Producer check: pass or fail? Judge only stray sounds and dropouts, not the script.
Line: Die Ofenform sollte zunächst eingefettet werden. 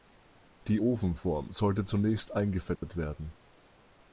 fail